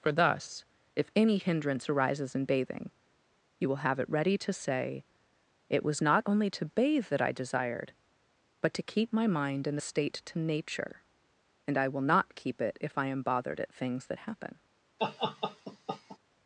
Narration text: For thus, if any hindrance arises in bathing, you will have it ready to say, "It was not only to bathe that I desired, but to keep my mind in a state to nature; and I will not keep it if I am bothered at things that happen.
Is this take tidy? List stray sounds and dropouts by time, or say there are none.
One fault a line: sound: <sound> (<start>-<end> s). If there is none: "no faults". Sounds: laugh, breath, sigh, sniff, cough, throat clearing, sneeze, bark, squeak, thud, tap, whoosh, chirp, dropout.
sound: laugh (15.0-16.2 s)